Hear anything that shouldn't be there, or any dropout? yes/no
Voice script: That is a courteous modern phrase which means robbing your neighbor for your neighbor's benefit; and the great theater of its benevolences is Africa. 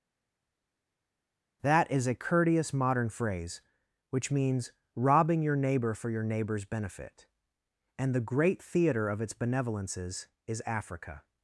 no